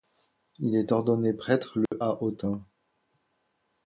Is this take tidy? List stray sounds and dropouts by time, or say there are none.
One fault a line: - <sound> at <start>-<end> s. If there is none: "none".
- dropout at 1.9-1.9 s